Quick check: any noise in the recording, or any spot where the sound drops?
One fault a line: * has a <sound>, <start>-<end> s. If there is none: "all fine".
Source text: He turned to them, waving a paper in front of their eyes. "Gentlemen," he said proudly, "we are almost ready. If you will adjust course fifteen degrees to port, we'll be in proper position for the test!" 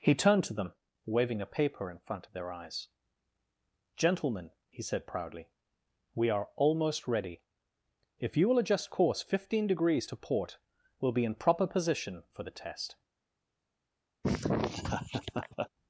* has a laugh, 14.2-15.7 s